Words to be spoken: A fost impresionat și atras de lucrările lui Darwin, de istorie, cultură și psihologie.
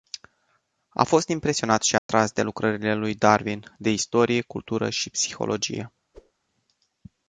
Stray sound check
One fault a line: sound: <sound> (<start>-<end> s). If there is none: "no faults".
sound: dropout (2.0-2.1 s)
sound: whoosh (6.1-6.3 s)